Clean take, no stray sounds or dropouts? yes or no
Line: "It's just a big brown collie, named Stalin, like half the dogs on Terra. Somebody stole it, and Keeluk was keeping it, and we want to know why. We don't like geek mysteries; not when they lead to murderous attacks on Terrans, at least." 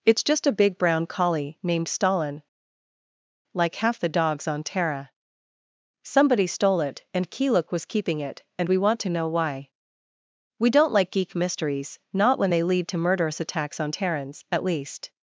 yes